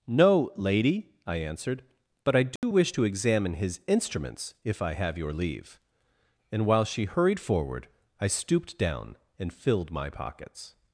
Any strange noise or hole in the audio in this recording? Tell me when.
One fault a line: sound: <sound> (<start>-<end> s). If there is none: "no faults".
sound: dropout (2.6-2.6 s)